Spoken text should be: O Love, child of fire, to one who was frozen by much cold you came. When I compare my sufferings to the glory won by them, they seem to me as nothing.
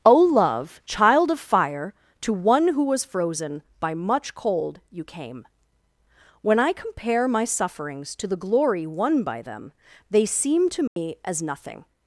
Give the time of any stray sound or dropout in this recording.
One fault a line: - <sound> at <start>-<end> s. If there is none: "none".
- dropout at 10.9-11.0 s